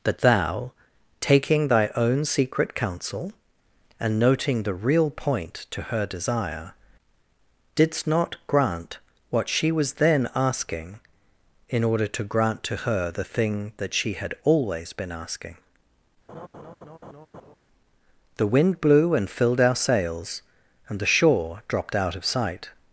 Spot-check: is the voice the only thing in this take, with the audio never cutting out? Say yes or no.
no